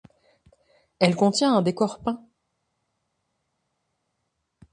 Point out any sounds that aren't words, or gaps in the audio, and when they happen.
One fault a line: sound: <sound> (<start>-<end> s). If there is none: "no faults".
no faults